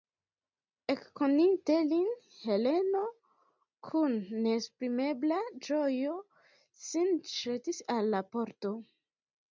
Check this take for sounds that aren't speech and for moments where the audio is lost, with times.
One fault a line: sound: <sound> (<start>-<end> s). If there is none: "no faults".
no faults